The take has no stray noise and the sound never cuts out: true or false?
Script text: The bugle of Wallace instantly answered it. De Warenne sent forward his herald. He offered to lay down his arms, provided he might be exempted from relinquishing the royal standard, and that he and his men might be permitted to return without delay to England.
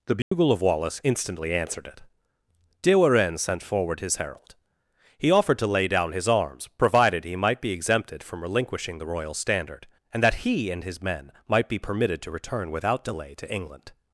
false